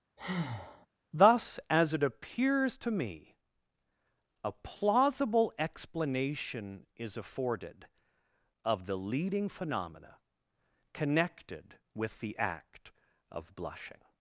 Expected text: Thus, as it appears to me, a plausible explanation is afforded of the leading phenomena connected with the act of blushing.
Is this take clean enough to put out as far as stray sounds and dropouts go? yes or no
no